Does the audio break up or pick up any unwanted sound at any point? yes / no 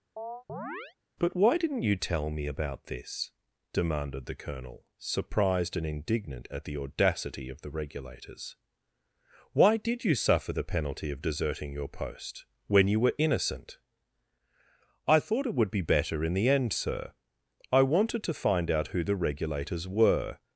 yes